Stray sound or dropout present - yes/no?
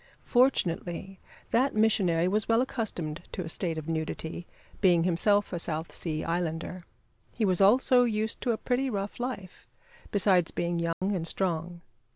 yes